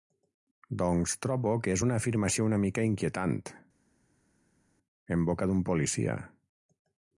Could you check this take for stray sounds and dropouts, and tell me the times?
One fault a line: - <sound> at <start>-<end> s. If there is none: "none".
none